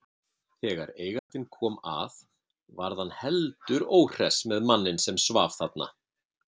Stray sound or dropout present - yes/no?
yes